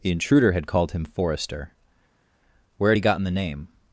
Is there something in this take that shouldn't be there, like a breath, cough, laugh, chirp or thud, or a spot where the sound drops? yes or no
no